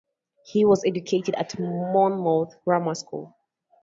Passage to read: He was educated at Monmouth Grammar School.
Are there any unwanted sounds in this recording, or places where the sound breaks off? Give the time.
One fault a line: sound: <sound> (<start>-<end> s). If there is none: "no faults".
no faults